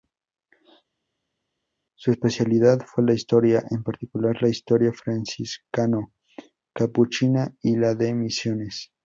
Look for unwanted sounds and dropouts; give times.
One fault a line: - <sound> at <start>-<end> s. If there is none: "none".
none